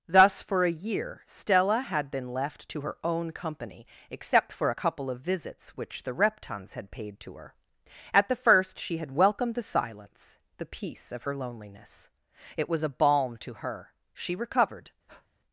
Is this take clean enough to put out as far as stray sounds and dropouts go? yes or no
no